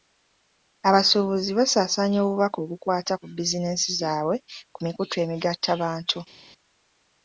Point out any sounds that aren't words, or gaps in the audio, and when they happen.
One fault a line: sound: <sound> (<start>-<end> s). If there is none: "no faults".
no faults